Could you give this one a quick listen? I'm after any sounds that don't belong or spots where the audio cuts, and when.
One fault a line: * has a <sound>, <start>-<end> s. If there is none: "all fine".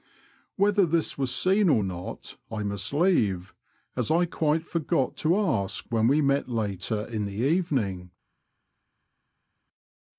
all fine